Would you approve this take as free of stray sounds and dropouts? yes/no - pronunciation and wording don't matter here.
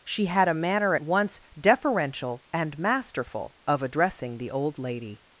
yes